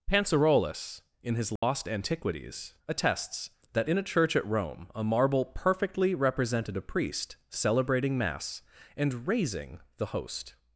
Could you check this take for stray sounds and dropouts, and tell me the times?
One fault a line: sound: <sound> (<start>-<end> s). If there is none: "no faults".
sound: dropout (1.6-1.6 s)